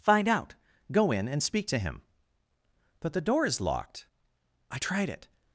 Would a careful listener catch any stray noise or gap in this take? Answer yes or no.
no